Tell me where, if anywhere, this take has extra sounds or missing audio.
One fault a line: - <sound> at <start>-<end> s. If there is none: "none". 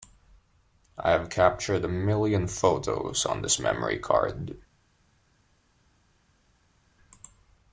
none